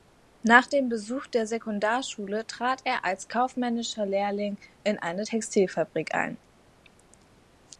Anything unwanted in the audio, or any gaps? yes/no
no